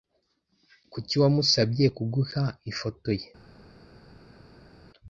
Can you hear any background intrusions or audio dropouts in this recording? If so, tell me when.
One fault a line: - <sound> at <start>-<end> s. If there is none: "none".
none